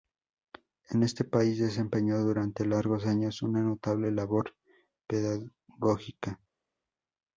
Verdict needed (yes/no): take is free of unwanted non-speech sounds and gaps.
yes